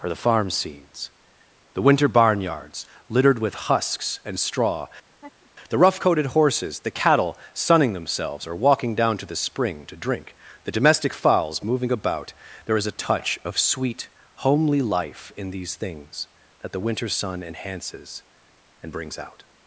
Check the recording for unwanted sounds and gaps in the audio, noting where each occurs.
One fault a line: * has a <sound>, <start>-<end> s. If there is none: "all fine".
* has a laugh, 5.1-5.5 s